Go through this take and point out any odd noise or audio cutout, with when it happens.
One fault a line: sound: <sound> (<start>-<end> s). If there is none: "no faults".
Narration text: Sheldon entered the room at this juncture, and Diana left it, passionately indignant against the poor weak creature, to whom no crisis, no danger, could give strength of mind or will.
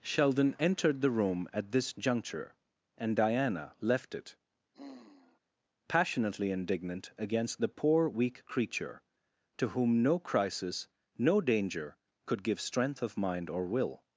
sound: sigh (4.7-5.4 s)